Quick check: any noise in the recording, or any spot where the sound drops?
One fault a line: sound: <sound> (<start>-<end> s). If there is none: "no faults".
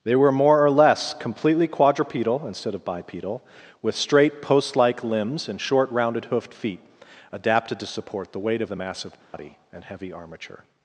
sound: dropout (9.2-9.3 s)